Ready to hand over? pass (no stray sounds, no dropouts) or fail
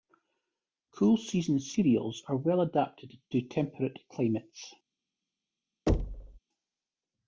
fail